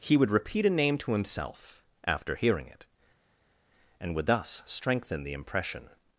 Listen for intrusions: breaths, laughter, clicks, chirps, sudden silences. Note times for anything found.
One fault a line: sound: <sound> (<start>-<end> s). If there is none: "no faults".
no faults